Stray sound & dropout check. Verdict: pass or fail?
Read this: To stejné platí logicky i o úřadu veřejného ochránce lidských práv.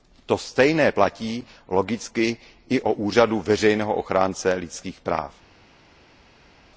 pass